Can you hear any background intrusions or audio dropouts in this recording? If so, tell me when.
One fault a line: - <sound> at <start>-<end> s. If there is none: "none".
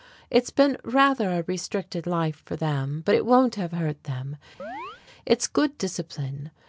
- chirp at 4.6-5.0 s